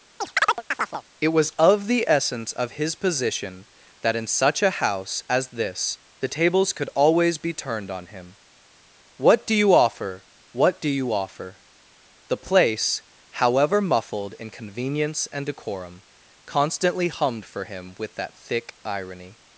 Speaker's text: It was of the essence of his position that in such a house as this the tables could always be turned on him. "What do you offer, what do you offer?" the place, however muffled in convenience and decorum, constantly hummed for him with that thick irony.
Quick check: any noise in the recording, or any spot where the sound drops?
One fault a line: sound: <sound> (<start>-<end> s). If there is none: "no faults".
sound: chirp (0.2-1.0 s)